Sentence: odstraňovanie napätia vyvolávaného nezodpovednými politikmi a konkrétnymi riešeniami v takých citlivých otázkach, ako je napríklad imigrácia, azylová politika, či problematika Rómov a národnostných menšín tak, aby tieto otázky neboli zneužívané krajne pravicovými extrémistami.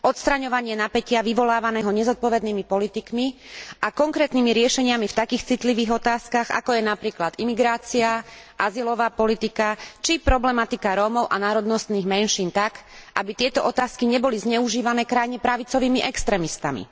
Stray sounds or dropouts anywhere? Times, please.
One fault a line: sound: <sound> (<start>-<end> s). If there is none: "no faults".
no faults